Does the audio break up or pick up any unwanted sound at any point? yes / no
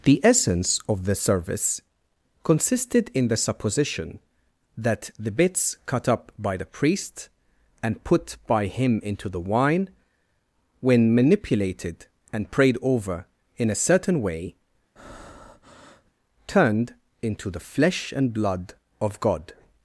yes